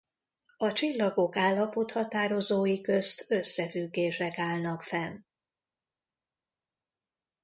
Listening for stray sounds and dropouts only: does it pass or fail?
pass